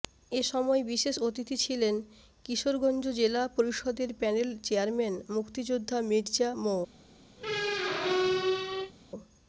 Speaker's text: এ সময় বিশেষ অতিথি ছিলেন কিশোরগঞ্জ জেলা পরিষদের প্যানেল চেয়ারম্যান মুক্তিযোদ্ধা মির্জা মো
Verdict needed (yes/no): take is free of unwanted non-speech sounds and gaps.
no